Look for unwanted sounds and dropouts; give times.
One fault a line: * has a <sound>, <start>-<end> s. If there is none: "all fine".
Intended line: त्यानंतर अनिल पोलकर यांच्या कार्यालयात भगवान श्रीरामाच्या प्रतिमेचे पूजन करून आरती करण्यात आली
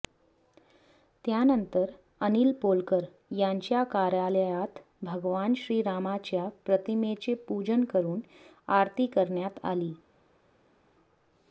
all fine